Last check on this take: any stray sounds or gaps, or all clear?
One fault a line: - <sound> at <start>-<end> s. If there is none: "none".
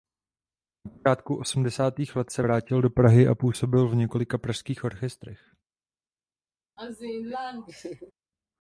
- laugh at 6.8-8.1 s